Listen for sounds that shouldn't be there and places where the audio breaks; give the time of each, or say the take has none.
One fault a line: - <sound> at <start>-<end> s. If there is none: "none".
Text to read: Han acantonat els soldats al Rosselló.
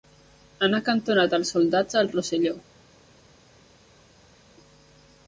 none